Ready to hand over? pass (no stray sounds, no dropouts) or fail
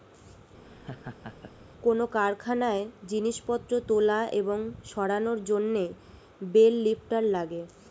fail